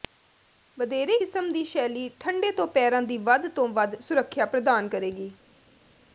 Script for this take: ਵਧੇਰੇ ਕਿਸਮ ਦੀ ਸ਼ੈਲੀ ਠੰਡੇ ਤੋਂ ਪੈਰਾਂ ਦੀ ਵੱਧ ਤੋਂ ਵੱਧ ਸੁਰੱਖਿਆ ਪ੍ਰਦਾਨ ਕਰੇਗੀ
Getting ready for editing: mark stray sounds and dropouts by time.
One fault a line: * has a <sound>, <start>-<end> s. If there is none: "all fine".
all fine